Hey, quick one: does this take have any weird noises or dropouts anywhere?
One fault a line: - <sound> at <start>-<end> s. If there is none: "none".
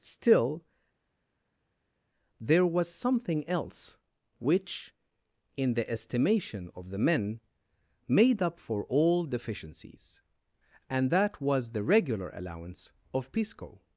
none